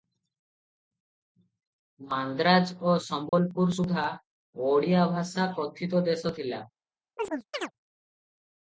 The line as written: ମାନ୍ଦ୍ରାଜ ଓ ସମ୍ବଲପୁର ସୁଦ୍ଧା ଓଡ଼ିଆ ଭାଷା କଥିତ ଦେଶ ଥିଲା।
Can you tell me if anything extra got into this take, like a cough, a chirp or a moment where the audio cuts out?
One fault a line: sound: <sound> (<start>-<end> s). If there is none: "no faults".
sound: dropout (3.3-3.3 s)
sound: chirp (7.2-7.7 s)